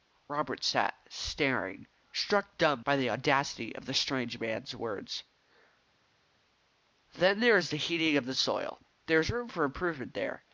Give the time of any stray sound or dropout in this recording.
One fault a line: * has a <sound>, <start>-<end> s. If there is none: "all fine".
all fine